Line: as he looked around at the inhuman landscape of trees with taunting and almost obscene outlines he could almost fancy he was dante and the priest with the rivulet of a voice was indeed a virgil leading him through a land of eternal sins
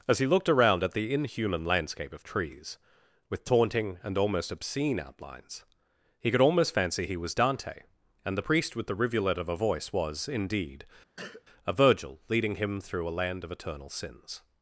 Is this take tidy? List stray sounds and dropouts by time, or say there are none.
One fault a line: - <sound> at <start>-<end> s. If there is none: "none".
- cough at 11.2-11.4 s